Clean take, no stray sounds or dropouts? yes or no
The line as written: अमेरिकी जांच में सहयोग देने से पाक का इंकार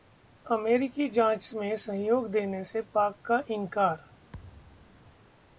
no